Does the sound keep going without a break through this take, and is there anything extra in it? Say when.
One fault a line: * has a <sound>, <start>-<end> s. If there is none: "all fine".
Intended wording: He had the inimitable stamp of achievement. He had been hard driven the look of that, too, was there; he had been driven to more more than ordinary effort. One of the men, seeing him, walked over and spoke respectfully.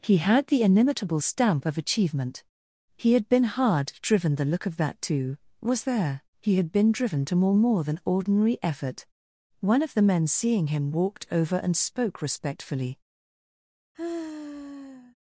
* has a sigh, 13.9-15.1 s